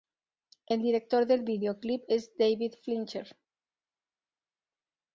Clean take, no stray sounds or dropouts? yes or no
yes